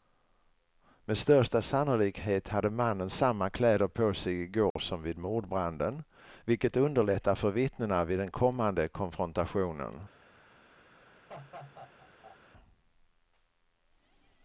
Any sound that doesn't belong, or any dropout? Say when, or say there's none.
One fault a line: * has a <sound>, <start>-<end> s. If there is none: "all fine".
* has a dropout, 4.7-4.8 s
* has a laugh, 11.3-12.4 s